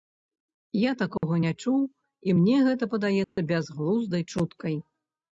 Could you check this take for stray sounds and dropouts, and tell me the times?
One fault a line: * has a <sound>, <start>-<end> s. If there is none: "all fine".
* has a dropout, 1.2-1.2 s
* has a dropout, 3.2-3.4 s